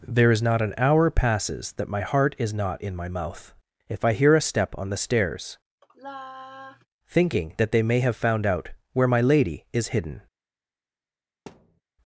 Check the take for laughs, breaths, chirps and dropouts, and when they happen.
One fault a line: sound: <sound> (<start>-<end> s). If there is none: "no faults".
sound: sigh (5.8-6.9 s)
sound: thud (11.5-11.8 s)